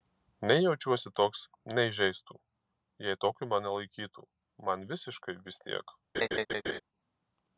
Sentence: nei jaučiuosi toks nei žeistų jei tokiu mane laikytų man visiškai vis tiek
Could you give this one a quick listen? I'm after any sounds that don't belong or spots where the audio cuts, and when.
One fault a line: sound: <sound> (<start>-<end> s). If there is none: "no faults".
sound: laugh (6.1-6.8 s)